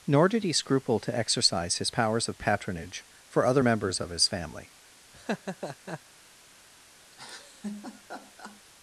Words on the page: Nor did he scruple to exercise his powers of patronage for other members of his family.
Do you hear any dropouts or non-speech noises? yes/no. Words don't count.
yes